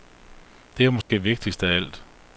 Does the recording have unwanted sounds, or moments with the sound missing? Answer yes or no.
yes